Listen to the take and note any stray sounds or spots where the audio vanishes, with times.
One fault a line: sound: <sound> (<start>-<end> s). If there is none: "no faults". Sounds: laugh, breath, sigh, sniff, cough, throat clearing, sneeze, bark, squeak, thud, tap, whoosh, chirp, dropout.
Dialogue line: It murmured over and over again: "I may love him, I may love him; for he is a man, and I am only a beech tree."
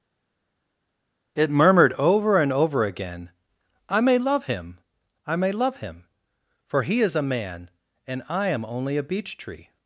no faults